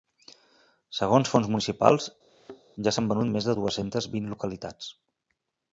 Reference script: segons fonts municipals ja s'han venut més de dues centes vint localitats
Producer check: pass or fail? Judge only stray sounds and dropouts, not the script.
fail